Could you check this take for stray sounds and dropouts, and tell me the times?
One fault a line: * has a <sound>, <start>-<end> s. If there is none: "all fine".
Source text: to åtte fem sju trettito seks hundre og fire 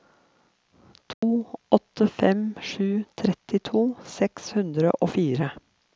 * has a dropout, 1.1-1.2 s